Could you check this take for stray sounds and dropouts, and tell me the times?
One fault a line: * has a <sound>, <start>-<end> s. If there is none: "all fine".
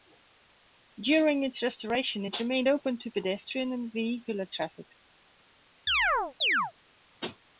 * has a chirp, 5.9-6.7 s